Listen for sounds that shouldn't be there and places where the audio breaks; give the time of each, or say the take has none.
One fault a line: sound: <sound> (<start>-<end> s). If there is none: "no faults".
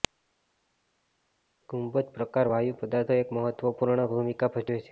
no faults